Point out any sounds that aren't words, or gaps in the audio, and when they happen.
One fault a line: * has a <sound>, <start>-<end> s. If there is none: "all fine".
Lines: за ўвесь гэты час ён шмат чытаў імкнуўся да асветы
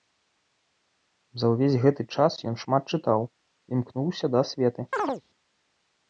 * has a chirp, 4.9-5.2 s